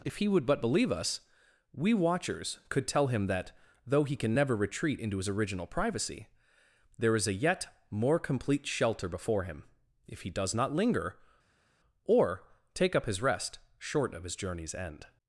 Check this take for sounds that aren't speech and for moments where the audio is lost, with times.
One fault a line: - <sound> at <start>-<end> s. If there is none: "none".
none